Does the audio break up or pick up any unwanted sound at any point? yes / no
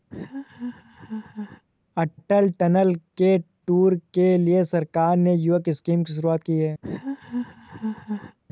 yes